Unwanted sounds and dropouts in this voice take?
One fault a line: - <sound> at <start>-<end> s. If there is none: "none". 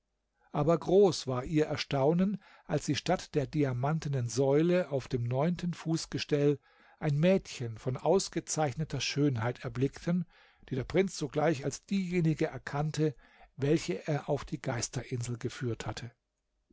none